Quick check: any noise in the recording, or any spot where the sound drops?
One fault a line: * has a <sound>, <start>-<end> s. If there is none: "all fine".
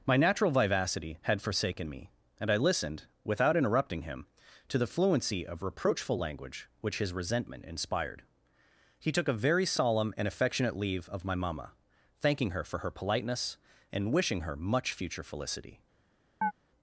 * has a chirp, 16.4-16.5 s